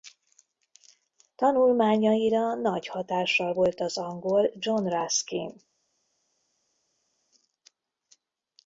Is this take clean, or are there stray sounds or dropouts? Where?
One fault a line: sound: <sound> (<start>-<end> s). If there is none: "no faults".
no faults